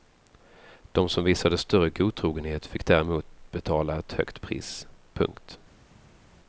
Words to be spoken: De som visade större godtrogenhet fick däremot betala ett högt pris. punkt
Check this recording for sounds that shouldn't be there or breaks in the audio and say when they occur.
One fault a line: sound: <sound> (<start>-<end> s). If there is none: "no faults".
no faults